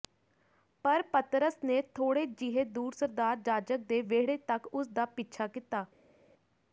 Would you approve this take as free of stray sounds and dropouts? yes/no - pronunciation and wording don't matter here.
yes